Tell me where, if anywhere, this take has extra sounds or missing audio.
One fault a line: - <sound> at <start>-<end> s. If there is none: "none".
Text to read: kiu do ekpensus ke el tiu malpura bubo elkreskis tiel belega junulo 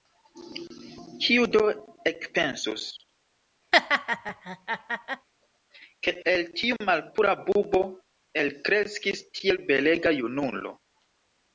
- laugh at 3.7-5.3 s